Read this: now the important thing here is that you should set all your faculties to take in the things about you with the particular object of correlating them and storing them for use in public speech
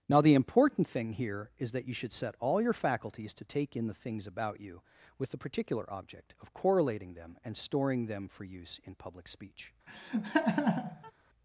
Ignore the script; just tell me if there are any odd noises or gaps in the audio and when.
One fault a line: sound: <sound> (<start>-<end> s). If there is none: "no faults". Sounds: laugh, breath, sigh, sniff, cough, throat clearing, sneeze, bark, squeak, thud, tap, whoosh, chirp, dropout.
sound: laugh (9.9-11.1 s)